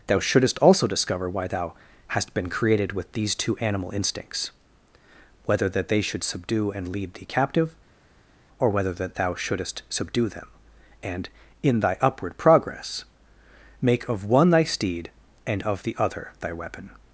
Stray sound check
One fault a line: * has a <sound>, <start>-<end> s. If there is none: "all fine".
all fine